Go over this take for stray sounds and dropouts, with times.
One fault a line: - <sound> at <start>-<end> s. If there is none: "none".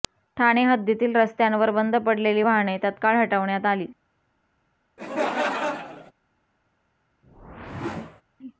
- laugh at 5.0-6.1 s
- whoosh at 7.2-8.2 s